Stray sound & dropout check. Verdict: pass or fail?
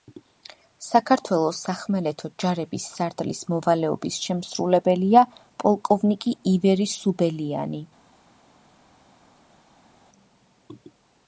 pass